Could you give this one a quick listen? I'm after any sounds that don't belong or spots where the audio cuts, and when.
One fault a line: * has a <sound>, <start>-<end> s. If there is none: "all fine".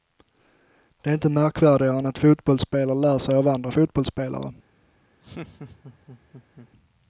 * has a laugh, 5.2-6.7 s